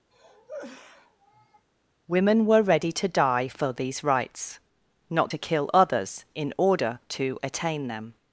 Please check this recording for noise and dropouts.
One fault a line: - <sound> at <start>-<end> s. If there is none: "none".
- cough at 0.1-1.7 s